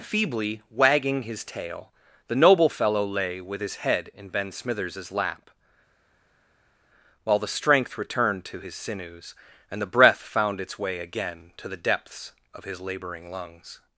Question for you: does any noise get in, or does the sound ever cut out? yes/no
no